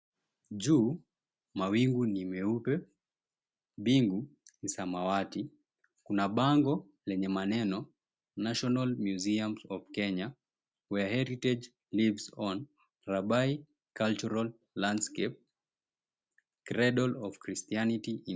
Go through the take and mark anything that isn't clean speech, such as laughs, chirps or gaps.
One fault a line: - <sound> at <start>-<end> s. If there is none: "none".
none